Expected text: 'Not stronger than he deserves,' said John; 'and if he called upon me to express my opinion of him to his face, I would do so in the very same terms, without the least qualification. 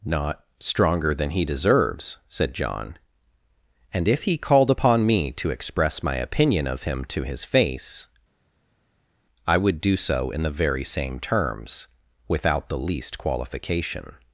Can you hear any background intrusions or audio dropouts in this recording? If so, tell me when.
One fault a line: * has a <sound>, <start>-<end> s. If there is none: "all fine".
all fine